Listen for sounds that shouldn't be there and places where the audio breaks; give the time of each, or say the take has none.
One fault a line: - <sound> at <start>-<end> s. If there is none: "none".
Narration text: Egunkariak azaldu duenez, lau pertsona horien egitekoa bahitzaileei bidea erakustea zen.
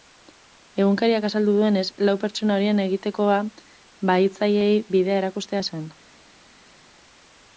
none